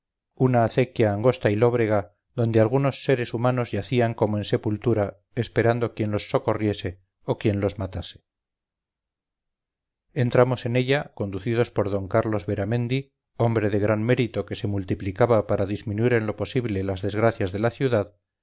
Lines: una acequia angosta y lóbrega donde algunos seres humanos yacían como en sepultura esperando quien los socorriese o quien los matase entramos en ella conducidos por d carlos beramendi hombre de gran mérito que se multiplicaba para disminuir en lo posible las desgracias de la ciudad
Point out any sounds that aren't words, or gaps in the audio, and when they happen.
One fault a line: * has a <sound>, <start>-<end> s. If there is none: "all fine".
all fine